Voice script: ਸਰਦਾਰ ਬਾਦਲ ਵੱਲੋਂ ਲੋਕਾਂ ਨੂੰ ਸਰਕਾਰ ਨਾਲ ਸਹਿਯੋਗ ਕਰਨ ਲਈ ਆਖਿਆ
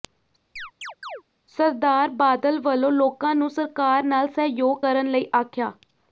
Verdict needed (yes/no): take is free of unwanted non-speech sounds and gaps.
no